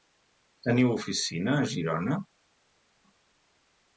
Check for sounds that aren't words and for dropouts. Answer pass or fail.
pass